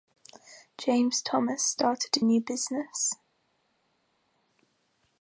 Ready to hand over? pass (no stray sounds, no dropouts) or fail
pass